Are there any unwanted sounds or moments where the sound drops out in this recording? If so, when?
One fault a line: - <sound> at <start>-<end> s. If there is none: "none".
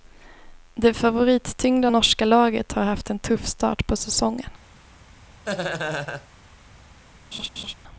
- laugh at 5.5-6.3 s
- laugh at 7.3-7.7 s